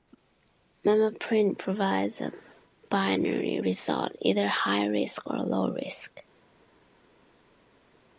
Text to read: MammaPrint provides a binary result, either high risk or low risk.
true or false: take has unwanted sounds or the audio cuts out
false